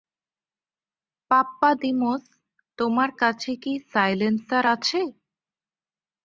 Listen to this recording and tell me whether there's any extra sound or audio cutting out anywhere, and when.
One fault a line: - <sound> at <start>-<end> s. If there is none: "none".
none